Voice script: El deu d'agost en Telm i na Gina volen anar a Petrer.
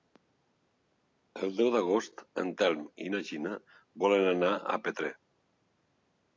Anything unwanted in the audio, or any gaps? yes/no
no